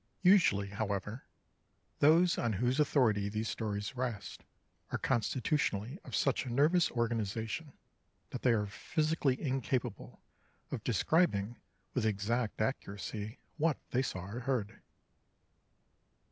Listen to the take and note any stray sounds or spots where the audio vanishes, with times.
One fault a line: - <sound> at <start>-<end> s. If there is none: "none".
none